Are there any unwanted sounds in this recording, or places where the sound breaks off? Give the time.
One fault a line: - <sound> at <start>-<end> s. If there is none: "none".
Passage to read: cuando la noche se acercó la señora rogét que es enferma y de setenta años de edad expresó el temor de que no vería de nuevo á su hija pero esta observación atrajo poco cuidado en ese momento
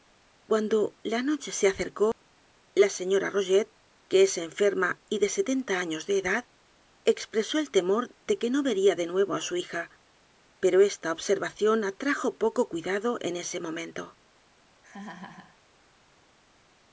- dropout at 2.1-2.2 s
- laugh at 14.8-15.6 s